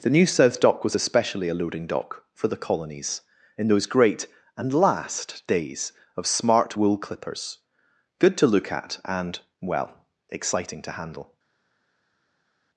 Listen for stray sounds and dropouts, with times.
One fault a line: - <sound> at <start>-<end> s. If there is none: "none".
none